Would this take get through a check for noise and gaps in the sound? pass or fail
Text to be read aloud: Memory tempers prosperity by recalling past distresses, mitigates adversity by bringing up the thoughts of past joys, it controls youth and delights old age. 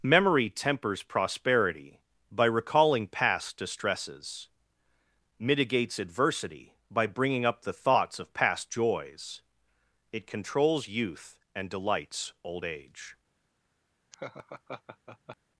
fail